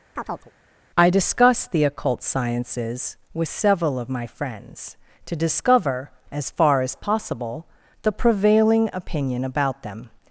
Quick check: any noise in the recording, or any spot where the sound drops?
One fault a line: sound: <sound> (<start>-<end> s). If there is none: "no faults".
sound: chirp (0.2-0.5 s)